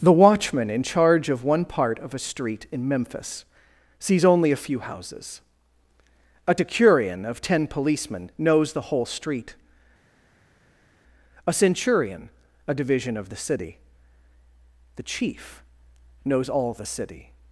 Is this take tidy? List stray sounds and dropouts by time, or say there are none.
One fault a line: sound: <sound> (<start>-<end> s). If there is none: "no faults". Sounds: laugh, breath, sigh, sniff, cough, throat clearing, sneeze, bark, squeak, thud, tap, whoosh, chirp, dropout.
no faults